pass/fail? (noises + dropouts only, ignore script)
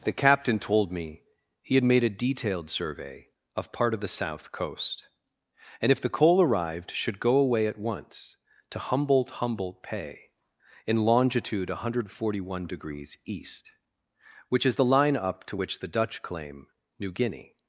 pass